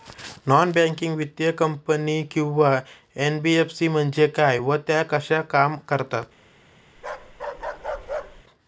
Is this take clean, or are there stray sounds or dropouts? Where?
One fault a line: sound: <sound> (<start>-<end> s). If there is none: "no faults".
sound: bark (7.0-8.4 s)